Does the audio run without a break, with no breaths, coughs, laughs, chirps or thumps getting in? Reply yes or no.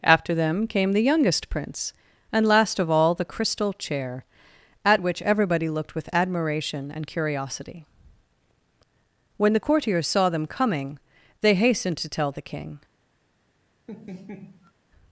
no